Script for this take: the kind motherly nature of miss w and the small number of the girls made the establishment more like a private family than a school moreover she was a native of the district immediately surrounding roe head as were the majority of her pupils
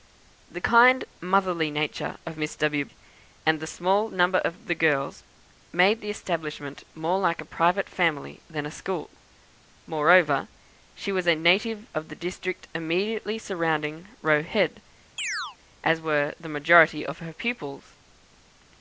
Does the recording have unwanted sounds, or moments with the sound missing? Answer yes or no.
yes